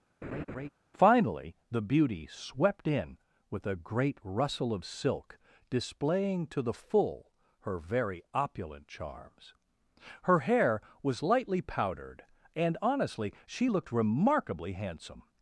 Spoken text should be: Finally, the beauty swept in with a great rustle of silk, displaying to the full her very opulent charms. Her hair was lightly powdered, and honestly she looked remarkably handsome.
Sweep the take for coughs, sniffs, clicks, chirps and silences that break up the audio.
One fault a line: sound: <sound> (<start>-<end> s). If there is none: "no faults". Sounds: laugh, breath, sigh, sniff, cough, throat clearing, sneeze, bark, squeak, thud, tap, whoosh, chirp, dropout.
sound: laugh (0.2-0.7 s)